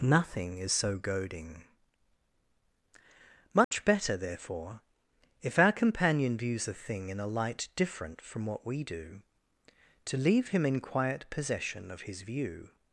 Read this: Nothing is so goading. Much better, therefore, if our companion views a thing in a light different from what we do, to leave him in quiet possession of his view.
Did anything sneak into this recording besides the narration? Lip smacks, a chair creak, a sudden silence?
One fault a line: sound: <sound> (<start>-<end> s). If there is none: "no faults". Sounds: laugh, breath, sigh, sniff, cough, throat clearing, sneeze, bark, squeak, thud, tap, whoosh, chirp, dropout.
sound: dropout (3.6-3.7 s)